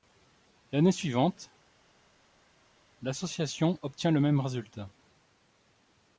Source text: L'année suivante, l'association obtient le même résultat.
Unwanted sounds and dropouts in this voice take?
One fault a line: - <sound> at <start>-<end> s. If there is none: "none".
none